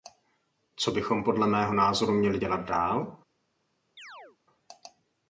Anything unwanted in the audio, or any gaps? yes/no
yes